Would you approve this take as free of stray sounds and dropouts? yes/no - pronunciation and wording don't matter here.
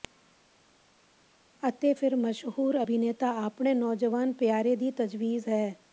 yes